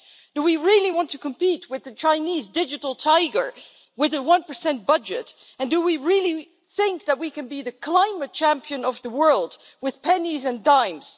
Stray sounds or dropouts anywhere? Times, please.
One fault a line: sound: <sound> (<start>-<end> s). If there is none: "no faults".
no faults